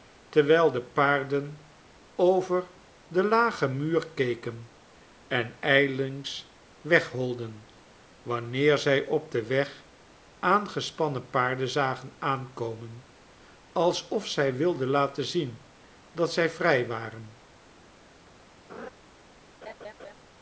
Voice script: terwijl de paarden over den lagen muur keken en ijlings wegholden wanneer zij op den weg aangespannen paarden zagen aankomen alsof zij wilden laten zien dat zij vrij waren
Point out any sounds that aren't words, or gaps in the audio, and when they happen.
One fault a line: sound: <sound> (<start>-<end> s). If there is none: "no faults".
sound: laugh (18.7-18.9 s)
sound: laugh (19.6-20.1 s)